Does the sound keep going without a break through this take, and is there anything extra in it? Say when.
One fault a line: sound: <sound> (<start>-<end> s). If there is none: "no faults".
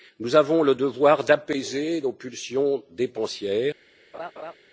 sound: laugh (4.1-4.5 s)